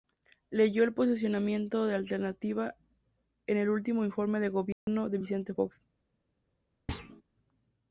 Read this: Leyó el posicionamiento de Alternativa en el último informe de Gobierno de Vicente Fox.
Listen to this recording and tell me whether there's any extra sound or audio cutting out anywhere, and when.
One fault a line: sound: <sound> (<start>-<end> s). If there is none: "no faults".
sound: dropout (4.7-4.9 s)
sound: thud (6.9-7.2 s)